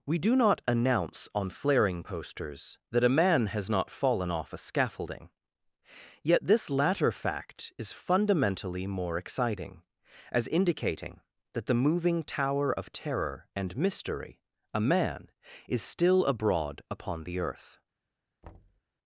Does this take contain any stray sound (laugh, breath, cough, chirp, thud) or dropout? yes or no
yes